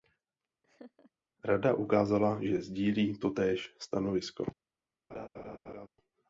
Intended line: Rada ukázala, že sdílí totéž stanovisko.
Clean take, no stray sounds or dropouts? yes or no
no